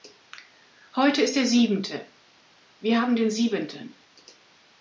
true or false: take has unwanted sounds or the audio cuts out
false